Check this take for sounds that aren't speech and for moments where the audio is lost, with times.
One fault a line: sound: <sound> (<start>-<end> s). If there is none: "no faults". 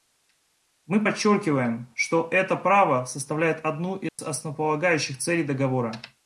sound: dropout (4.1-4.2 s)